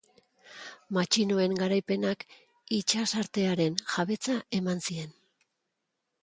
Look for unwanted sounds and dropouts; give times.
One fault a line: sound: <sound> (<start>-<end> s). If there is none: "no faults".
no faults